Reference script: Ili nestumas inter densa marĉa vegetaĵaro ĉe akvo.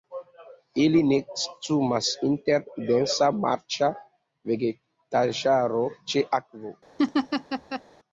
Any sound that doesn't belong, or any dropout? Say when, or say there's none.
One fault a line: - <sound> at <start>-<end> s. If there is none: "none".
- laugh at 7.0-7.8 s